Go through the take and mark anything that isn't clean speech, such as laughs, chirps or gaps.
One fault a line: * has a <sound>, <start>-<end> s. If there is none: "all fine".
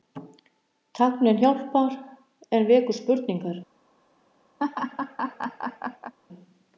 * has a laugh, 4.6-6.1 s